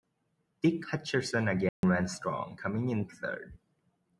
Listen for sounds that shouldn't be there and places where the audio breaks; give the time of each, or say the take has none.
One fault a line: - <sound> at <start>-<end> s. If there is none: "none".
- dropout at 1.7-1.8 s